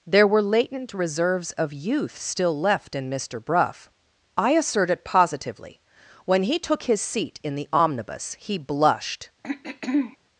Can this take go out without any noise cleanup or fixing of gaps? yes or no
no